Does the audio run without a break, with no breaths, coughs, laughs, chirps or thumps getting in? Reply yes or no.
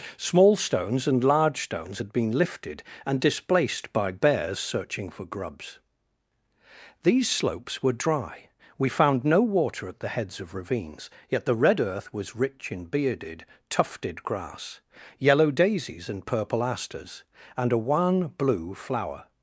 yes